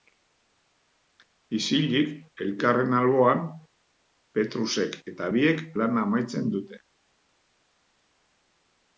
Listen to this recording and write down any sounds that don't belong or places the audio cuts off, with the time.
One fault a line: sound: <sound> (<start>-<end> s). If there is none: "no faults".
no faults